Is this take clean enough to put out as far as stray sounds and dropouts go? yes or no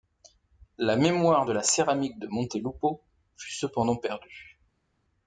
yes